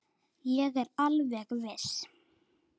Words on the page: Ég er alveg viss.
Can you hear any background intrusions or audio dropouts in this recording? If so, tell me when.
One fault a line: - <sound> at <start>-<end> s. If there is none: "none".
none